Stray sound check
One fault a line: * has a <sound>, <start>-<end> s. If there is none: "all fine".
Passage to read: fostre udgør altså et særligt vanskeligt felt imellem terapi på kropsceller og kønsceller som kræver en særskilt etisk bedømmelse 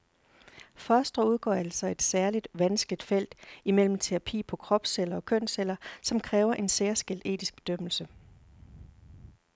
all fine